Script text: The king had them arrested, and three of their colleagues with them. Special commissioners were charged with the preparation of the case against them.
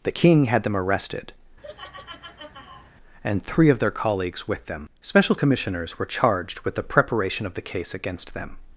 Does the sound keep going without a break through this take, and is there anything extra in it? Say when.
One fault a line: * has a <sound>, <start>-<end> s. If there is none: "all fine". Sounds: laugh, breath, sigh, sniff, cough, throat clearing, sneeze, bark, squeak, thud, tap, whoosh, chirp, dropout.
* has a laugh, 1.6-2.9 s